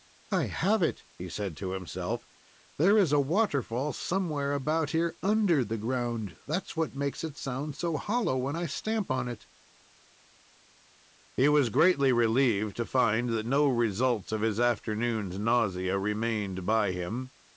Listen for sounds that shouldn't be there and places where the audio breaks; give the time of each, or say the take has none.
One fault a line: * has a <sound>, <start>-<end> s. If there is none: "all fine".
all fine